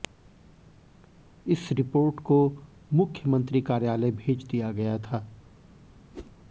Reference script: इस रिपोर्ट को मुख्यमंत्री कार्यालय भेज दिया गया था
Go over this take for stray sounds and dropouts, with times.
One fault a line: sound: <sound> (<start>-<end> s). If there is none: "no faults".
sound: whoosh (6.1-6.3 s)